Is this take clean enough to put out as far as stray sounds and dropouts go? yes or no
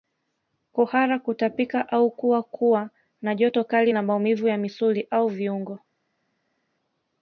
yes